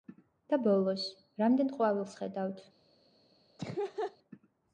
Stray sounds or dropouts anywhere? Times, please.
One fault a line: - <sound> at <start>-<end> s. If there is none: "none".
- laugh at 3.6-4.2 s